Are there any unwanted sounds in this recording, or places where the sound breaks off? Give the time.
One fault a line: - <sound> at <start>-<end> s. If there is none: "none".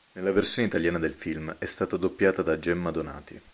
none